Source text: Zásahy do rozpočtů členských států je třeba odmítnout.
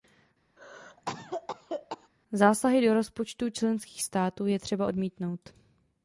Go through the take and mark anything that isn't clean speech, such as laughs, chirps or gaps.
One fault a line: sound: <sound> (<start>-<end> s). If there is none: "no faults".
sound: cough (0.6-2.1 s)